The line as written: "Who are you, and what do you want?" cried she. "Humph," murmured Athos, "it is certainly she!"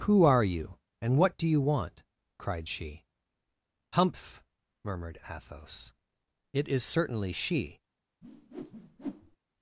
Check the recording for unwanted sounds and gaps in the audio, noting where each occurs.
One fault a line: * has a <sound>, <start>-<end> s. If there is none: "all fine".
* has a whoosh, 8.2-9.4 s